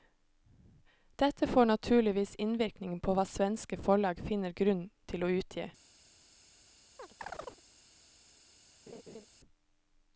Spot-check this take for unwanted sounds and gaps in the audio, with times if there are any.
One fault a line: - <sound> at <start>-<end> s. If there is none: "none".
- chirp at 7.0-7.6 s
- laugh at 8.9-9.3 s